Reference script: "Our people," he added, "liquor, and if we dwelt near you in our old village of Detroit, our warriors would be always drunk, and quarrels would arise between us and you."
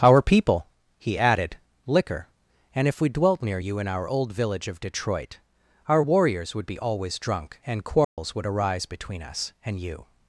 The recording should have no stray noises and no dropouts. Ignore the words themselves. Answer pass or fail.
fail